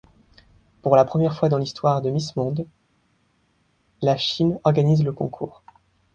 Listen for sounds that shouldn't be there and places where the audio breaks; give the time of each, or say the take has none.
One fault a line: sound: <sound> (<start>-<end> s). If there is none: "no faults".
no faults